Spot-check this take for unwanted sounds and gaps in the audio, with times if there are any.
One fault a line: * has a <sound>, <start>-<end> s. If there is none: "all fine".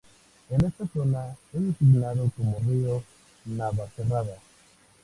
all fine